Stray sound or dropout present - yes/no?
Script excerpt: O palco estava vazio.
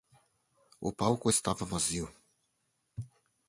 no